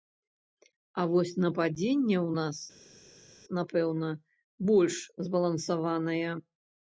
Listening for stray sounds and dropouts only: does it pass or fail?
pass